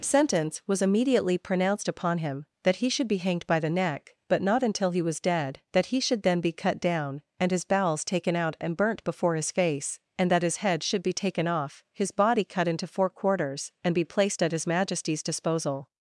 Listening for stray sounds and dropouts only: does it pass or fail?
pass